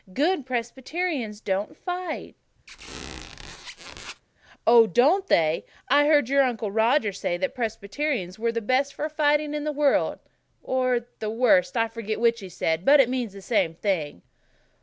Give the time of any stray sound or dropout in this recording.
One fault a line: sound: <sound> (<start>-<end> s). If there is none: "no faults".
sound: squeak (2.7-4.2 s)